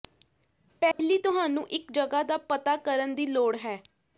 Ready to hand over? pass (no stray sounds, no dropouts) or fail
fail